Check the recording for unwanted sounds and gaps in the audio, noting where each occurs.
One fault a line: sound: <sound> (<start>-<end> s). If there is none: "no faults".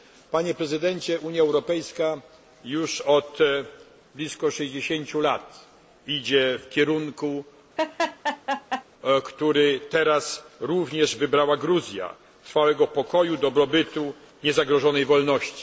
sound: laugh (7.8-8.8 s)